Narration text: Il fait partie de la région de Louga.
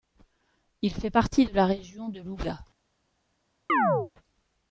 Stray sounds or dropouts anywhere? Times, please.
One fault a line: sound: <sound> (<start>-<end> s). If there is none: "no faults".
sound: chirp (3.7-4.1 s)